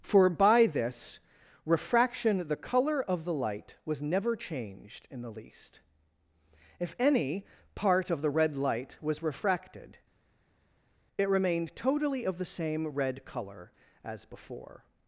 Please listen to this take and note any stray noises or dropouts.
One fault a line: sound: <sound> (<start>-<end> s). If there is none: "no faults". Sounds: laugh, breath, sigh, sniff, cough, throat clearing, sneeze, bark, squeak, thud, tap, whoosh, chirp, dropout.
no faults